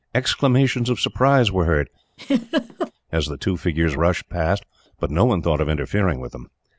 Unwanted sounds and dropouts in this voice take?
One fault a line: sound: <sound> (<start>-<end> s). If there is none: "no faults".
sound: laugh (2.2-2.9 s)